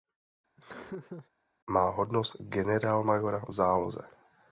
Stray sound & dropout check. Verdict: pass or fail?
fail